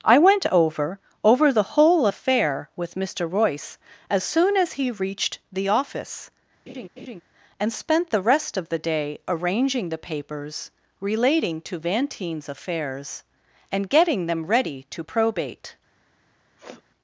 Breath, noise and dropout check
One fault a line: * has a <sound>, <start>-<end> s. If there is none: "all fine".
* has a laugh, 6.7-7.2 s
* has a sniff, 16.6-16.8 s